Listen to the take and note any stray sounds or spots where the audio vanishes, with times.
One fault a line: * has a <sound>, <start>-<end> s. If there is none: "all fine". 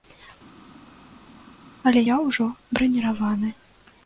all fine